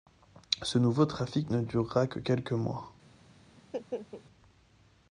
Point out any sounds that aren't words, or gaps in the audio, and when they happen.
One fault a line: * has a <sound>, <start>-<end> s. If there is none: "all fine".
* has a laugh, 3.6-4.2 s